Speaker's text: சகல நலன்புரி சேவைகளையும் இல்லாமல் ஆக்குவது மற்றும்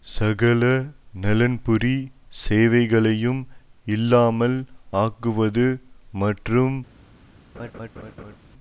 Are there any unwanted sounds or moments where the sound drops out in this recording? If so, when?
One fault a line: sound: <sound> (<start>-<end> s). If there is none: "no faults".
sound: laugh (7.5-8.4 s)